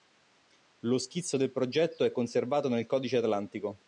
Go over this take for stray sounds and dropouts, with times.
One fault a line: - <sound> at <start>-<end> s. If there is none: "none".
none